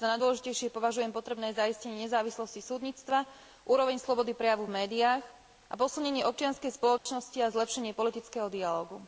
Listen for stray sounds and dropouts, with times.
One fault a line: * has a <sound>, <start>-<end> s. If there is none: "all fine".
* has a dropout, 7.0-7.1 s